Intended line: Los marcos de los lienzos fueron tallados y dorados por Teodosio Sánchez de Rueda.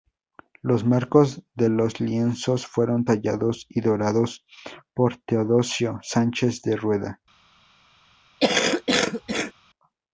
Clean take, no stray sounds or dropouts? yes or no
no